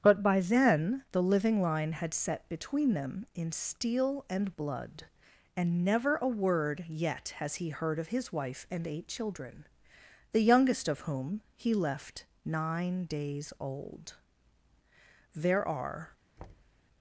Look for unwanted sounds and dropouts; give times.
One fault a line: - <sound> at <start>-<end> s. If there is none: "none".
- thud at 16.4-16.8 s